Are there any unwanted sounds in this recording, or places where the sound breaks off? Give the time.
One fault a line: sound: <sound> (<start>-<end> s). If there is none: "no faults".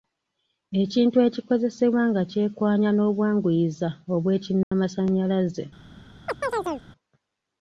sound: dropout (4.6-4.7 s)
sound: chirp (6.3-6.9 s)